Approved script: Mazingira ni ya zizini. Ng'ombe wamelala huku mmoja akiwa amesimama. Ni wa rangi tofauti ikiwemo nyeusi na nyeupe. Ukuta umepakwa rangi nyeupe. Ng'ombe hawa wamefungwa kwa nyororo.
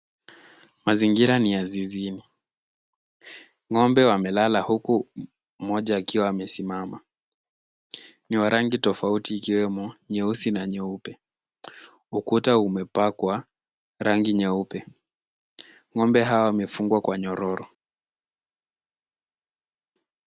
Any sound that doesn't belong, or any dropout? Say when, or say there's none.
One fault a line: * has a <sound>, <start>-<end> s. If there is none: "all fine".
all fine